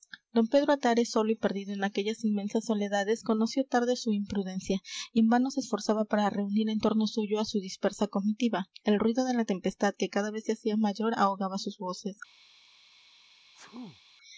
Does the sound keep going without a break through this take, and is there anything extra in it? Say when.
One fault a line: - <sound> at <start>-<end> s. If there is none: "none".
- sneeze at 13.5-14.0 s